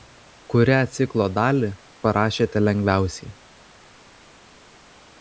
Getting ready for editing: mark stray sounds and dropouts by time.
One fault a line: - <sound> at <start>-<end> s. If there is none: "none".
none